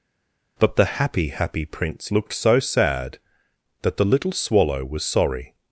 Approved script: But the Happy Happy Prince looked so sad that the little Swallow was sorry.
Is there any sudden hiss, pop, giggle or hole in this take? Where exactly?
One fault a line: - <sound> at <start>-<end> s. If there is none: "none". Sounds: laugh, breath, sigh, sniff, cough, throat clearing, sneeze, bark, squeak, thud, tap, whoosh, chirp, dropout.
none